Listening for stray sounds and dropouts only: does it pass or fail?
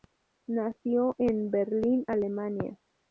pass